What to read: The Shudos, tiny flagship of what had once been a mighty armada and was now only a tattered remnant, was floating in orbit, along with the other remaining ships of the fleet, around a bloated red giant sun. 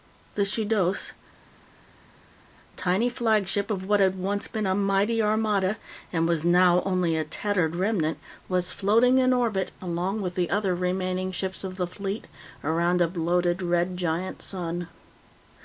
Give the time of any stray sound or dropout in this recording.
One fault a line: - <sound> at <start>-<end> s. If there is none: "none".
none